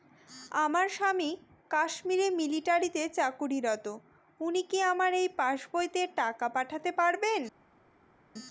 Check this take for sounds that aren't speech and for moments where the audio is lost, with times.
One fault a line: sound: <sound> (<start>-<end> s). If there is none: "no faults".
no faults